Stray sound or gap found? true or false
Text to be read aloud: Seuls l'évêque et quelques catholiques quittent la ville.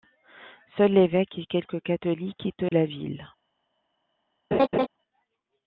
true